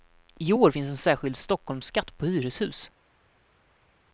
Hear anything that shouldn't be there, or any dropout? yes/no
no